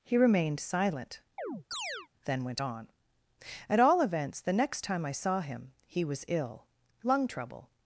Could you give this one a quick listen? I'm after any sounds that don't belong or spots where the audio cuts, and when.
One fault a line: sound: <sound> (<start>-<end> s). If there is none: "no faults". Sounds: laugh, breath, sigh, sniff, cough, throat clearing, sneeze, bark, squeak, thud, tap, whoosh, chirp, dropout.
sound: chirp (1.4-2.1 s)